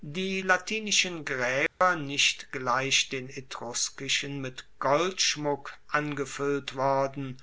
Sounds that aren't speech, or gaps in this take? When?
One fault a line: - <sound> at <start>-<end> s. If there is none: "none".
- dropout at 1.7-1.8 s